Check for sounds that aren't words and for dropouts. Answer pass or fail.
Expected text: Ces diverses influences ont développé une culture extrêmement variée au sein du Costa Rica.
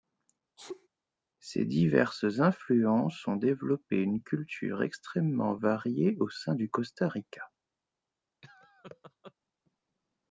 fail